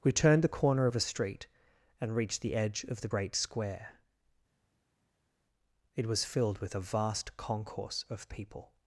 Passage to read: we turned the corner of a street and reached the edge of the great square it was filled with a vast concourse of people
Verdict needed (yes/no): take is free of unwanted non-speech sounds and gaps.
yes